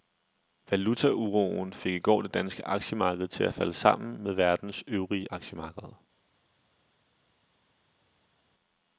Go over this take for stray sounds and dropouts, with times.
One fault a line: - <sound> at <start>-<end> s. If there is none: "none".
none